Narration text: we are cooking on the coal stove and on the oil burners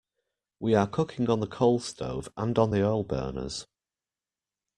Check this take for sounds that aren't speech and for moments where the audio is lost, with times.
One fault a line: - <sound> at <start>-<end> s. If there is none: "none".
none